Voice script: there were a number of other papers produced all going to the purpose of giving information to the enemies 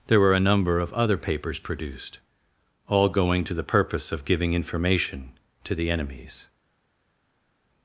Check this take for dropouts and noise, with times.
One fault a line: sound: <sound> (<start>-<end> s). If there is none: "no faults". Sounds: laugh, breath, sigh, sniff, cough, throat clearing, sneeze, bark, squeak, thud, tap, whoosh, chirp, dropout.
no faults